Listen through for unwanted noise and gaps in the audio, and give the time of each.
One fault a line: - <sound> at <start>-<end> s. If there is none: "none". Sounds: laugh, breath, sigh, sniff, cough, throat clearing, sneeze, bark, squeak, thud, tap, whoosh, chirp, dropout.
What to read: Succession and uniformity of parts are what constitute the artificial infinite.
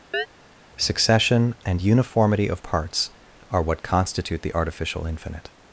- chirp at 0.1-0.3 s